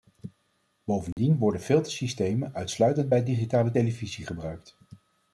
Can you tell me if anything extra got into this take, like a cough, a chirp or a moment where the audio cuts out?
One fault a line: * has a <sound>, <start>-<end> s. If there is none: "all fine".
* has a dropout, 1.1-1.2 s